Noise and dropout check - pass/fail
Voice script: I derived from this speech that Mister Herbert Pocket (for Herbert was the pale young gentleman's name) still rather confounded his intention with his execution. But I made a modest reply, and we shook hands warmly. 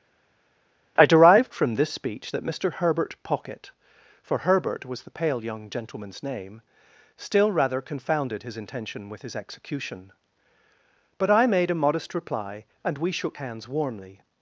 pass